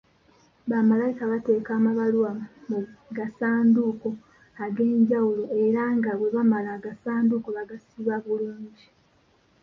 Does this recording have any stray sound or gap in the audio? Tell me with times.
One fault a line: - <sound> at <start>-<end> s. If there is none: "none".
none